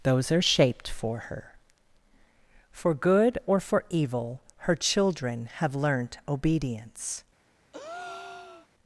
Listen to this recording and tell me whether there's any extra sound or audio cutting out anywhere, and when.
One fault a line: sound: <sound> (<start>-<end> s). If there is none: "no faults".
sound: breath (7.7-8.7 s)